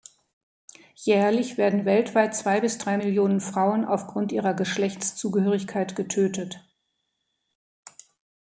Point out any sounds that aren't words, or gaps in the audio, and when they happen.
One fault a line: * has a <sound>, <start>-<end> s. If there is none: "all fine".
all fine